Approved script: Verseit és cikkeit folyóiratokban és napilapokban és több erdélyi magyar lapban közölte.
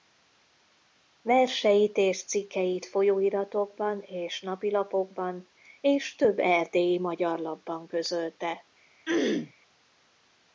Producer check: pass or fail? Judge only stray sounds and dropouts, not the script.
fail